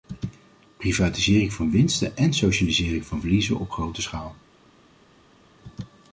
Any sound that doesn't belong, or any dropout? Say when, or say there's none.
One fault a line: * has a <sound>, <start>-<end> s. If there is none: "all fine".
all fine